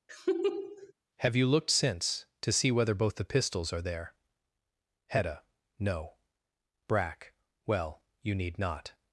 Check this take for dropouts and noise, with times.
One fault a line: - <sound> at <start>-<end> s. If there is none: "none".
- laugh at 0.1-0.9 s